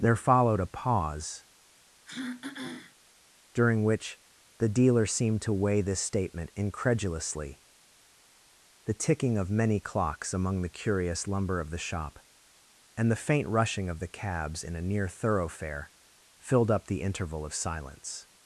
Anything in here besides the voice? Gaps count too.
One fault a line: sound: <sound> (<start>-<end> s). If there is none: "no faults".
sound: throat clearing (2.1-3.0 s)